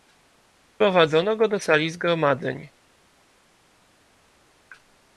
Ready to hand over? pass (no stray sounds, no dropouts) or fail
pass